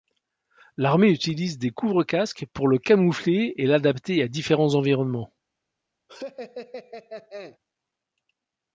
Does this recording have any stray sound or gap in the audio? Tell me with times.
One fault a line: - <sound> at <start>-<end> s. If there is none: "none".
- laugh at 6.1-7.6 s